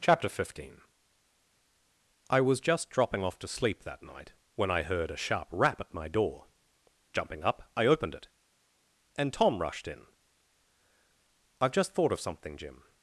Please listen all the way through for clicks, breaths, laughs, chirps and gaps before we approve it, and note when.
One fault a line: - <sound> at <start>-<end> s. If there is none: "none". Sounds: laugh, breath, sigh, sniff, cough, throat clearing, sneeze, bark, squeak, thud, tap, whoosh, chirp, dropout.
none